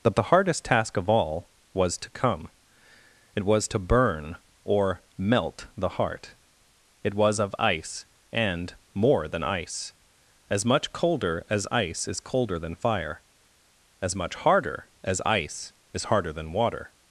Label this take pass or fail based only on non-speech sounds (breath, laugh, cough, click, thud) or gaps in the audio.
pass